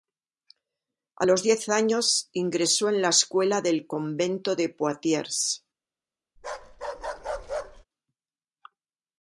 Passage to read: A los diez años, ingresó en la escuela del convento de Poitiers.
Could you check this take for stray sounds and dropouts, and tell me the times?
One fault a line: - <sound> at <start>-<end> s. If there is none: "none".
- bark at 6.4-7.8 s